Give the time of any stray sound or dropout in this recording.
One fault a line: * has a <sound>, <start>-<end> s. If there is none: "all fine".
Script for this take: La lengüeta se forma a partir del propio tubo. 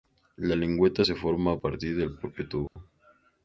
* has a dropout, 2.7-2.8 s